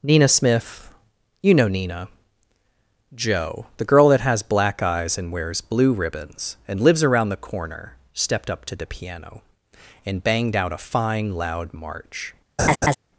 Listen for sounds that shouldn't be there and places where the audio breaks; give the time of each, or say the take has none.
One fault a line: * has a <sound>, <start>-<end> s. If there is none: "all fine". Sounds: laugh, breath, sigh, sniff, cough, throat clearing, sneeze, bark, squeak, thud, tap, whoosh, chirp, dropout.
* has a laugh, 12.6-13.0 s